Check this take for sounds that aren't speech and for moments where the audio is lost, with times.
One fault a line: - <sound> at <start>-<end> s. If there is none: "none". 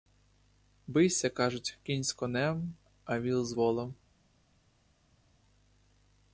none